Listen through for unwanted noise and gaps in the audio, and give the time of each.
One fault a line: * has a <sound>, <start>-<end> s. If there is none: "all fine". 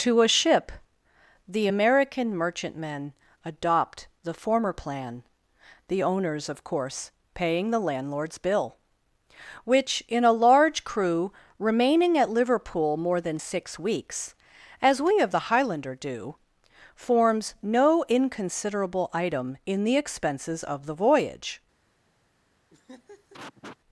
* has a laugh, 22.7-23.8 s